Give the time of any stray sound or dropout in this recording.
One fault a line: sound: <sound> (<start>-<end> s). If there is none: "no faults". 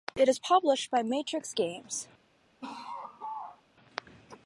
sound: laugh (2.6-3.6 s)